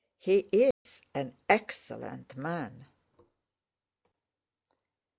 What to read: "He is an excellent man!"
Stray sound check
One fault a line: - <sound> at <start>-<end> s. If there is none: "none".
- dropout at 0.7-0.9 s